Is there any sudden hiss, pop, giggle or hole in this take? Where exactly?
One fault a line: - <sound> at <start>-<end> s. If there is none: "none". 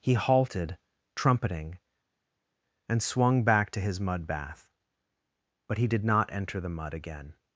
none